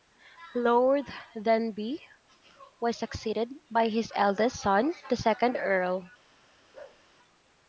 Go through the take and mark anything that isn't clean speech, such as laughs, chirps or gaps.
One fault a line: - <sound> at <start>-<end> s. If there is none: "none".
- bark at 6.7-7.0 s